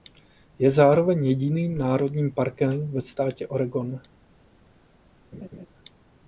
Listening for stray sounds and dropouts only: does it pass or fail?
fail